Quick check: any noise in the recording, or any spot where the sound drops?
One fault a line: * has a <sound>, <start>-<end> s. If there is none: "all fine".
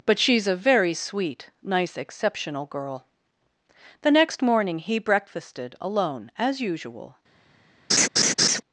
* has a laugh, 7.9-8.6 s